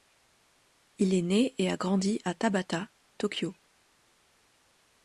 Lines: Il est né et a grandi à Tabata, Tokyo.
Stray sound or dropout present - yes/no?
no